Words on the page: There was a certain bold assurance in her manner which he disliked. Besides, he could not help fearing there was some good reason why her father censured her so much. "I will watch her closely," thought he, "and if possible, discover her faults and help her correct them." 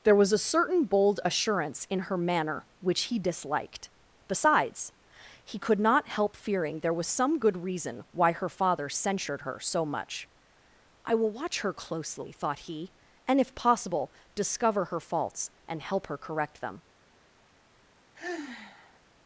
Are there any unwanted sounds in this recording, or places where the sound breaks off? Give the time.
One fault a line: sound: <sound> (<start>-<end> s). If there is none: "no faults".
sound: sigh (18.1-19.0 s)